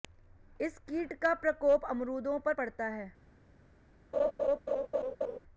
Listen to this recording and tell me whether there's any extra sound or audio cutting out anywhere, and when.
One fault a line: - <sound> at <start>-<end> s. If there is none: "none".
- laugh at 4.1-5.4 s